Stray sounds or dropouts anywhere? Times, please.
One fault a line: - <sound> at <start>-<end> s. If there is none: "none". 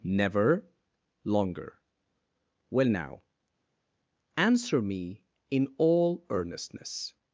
none